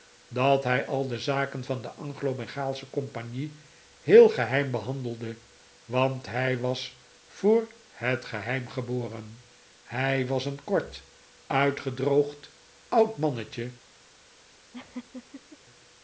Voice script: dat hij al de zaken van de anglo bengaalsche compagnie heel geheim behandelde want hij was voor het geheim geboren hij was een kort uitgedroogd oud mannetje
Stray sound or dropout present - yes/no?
yes